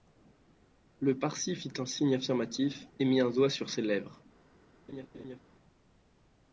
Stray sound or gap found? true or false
true